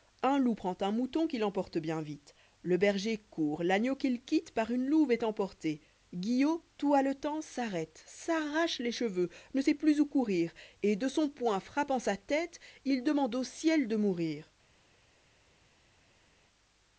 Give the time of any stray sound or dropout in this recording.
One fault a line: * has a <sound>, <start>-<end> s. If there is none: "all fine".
all fine